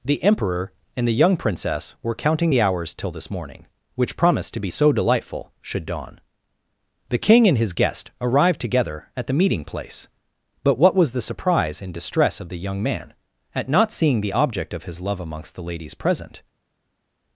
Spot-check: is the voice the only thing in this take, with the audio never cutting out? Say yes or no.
yes